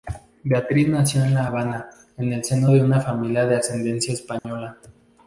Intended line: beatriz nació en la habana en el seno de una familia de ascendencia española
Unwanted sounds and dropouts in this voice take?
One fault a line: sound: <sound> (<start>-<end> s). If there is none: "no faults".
sound: dropout (4.4-4.4 s)